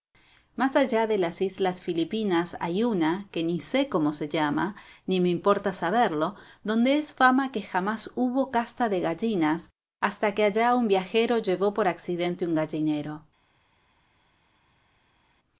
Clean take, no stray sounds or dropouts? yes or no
yes